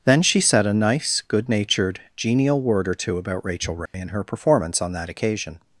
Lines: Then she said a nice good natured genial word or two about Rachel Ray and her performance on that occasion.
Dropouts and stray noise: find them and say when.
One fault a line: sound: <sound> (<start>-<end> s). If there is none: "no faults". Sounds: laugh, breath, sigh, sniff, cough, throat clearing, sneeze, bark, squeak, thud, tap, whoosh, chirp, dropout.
sound: dropout (3.9-3.9 s)